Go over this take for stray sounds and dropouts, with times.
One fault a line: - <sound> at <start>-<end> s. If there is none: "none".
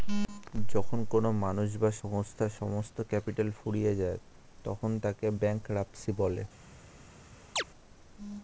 - chirp at 7.6-7.6 s